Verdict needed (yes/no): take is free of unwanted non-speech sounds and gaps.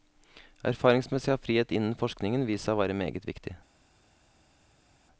yes